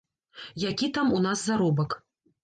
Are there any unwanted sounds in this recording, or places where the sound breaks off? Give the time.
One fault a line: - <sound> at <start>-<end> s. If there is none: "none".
none